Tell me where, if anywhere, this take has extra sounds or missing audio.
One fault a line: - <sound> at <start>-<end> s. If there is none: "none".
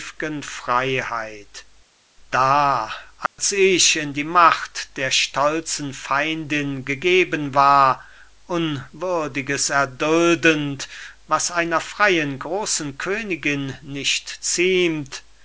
- dropout at 3.3-3.4 s